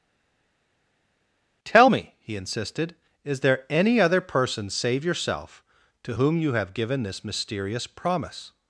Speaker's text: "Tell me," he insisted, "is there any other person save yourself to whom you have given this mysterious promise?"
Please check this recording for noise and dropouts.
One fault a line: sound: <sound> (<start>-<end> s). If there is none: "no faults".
no faults